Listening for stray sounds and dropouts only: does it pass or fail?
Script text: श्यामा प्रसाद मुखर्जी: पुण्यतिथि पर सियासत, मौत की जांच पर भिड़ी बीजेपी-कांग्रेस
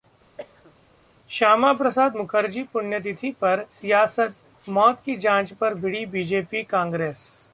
fail